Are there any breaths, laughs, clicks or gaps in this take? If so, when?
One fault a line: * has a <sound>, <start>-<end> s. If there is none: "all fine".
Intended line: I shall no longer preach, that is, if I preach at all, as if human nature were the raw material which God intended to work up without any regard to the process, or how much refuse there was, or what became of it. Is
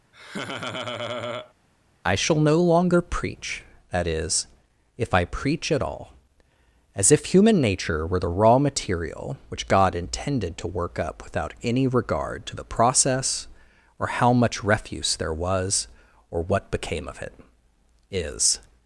* has a laugh, 0.1-1.5 s